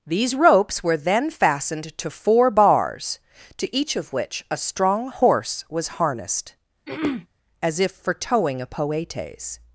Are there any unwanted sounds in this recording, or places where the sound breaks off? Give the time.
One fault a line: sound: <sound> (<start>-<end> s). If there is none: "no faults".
sound: throat clearing (6.9-7.3 s)